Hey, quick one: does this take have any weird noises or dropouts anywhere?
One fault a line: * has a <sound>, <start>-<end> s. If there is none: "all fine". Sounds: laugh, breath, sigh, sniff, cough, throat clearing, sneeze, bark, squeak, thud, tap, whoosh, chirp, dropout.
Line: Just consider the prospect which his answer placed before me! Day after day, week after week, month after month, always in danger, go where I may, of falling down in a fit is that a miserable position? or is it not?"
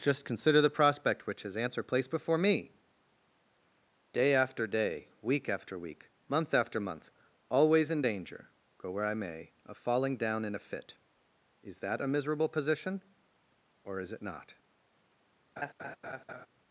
* has a laugh, 15.6-16.5 s